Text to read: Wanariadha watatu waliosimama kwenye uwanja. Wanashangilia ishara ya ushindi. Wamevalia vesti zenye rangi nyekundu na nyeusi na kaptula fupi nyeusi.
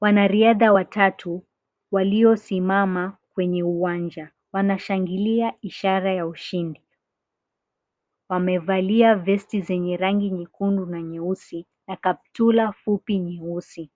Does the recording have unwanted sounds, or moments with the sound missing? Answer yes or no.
no